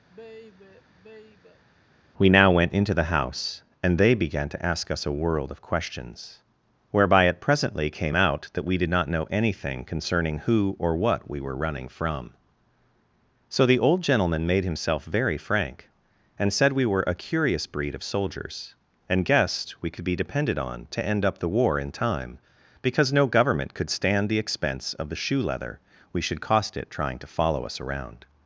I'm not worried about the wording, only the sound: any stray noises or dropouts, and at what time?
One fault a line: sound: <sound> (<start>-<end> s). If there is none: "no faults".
sound: sigh (0.1-1.6 s)